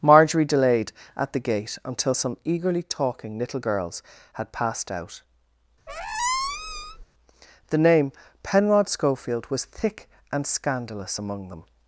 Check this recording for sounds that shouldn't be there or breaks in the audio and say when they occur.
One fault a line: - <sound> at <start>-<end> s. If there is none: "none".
- squeak at 5.9-7.0 s